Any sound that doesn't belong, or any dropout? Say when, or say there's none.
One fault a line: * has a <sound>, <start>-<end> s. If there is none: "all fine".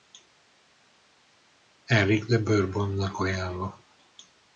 all fine